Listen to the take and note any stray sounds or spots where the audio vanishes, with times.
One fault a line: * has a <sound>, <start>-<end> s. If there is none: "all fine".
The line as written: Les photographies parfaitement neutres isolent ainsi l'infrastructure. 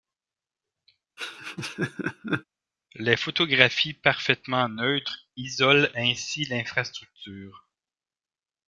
* has a laugh, 1.2-2.4 s